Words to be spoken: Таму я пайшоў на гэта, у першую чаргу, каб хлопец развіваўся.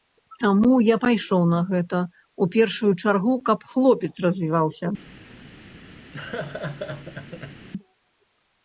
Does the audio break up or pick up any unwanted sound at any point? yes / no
yes